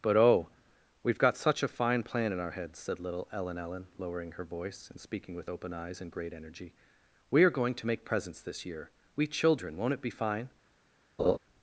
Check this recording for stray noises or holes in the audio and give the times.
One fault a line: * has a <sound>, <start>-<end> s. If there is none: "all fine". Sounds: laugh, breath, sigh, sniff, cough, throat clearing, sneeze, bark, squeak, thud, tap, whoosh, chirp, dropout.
* has a laugh, 11.2-11.4 s